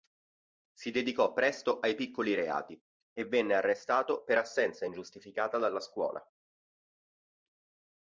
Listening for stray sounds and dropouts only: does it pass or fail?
pass